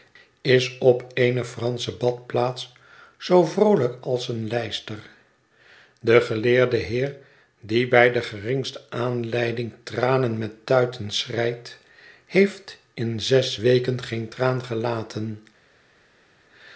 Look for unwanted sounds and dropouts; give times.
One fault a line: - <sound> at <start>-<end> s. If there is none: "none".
none